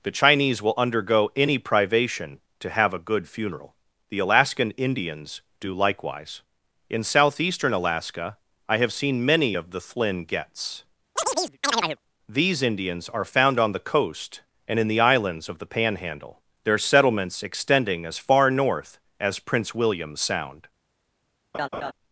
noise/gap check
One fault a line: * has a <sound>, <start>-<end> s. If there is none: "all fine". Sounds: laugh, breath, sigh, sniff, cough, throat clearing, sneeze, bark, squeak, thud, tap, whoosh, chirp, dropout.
* has a chirp, 11.2-12.0 s
* has a laugh, 21.5-21.9 s